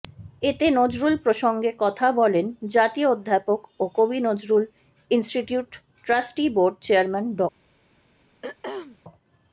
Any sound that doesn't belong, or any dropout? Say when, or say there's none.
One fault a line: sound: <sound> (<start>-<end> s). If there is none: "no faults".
sound: throat clearing (8.4-9.0 s)